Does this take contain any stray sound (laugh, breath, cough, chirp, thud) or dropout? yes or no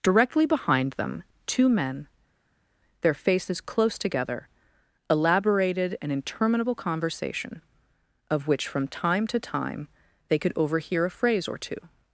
no